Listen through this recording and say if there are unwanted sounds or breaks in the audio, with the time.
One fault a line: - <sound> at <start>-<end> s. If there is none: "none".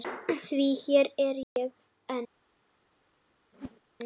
- dropout at 1.4-1.6 s
- whoosh at 3.5-3.8 s